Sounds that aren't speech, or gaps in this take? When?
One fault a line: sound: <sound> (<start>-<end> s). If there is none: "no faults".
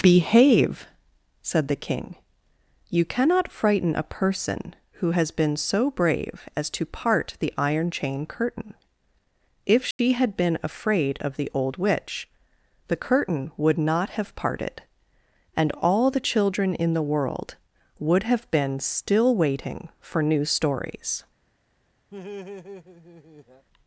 sound: dropout (9.9-10.0 s)
sound: laugh (22.1-23.7 s)